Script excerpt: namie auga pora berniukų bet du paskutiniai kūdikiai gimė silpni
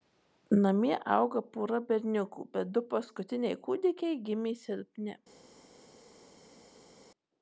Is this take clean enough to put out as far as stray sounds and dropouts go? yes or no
yes